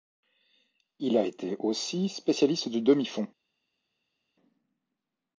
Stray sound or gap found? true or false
false